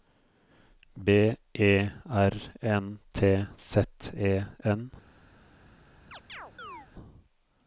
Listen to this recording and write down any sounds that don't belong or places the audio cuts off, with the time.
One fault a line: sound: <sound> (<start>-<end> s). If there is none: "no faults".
sound: chirp (6.1-6.9 s)